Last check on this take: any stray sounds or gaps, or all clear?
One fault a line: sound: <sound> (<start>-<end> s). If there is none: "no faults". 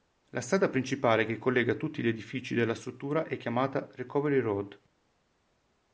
no faults